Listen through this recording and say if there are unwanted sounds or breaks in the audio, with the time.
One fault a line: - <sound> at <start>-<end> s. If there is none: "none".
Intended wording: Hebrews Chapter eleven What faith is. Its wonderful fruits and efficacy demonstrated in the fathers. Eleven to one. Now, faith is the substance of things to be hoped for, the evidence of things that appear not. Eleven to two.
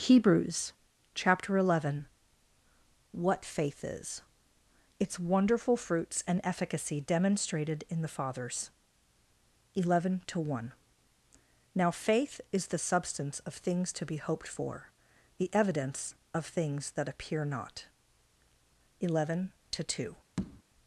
- tap at 20.4-20.6 s